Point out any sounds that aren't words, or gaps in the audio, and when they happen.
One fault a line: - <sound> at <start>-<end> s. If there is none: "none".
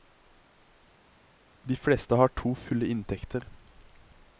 none